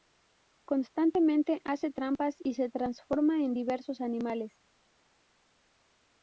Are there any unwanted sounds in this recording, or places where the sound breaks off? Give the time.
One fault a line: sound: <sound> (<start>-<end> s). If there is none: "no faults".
no faults